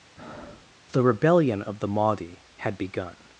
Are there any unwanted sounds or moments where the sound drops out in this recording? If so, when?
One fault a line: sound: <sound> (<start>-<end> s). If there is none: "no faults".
sound: breath (0.2-0.7 s)